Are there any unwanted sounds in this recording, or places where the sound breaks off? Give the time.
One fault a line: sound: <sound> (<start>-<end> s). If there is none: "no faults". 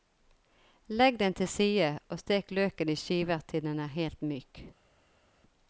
no faults